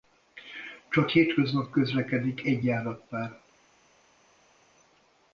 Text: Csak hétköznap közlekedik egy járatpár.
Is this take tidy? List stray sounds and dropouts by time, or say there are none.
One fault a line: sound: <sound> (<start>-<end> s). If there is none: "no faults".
no faults